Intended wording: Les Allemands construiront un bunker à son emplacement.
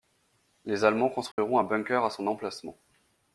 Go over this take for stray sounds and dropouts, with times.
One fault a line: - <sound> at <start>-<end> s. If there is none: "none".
- dropout at 1.3-1.4 s